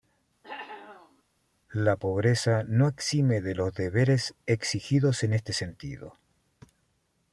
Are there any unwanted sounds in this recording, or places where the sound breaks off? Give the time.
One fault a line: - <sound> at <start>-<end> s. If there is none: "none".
- cough at 0.4-1.2 s